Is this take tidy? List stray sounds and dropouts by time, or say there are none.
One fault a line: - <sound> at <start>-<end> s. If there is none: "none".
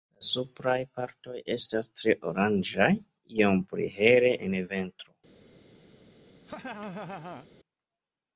- laugh at 6.5-7.5 s